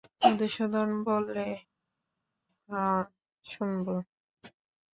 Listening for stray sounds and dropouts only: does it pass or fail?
pass